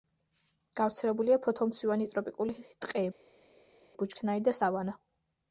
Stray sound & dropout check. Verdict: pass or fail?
pass